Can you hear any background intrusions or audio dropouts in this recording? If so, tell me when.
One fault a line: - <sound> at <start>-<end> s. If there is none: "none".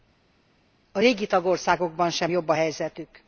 none